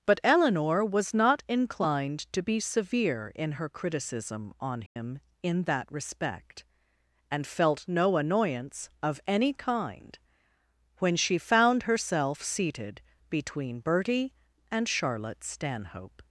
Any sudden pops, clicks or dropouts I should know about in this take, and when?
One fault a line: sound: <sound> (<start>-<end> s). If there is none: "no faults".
sound: dropout (4.9-5.0 s)